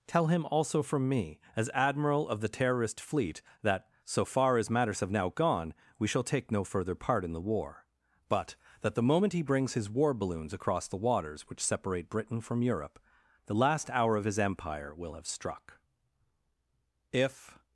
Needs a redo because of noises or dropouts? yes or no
no